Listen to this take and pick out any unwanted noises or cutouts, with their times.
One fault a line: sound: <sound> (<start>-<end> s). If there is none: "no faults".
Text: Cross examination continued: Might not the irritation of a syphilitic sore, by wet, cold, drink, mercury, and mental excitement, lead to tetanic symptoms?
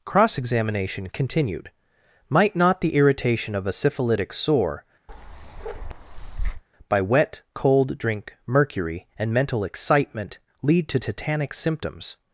sound: bark (5.1-6.6 s)